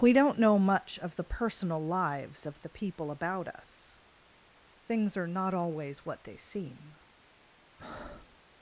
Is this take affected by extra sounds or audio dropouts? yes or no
yes